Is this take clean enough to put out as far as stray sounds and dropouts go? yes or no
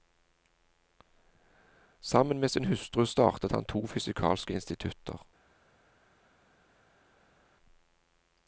yes